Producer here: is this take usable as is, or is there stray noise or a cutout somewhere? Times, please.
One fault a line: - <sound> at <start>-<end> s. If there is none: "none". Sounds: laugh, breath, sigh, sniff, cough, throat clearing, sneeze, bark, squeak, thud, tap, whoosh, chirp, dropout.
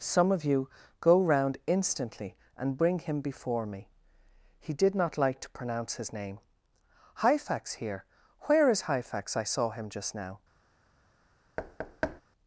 - thud at 11.6-12.2 s